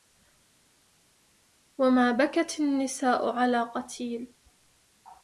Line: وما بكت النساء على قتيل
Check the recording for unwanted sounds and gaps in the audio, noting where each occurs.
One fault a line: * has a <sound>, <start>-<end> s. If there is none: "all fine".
all fine